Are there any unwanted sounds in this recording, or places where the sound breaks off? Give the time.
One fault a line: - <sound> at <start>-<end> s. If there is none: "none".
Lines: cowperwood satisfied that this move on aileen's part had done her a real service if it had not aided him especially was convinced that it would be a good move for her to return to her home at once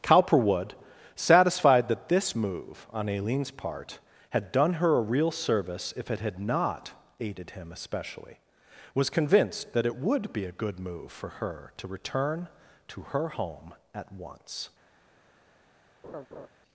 - laugh at 16.0-16.5 s